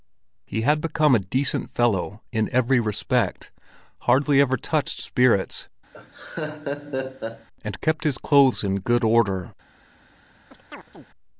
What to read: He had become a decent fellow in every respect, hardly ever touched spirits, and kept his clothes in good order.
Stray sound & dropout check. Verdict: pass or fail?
fail